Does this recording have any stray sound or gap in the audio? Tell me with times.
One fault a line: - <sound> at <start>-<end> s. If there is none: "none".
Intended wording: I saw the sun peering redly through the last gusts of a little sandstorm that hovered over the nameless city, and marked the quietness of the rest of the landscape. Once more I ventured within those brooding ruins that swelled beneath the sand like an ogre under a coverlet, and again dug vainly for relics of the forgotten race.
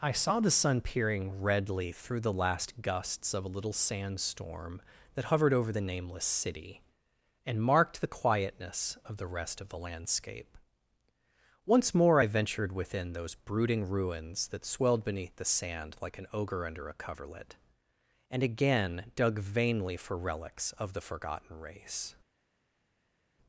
none